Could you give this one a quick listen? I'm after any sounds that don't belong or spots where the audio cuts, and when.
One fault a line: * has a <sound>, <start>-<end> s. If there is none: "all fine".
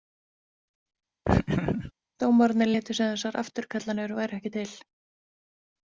* has a laugh, 1.2-1.9 s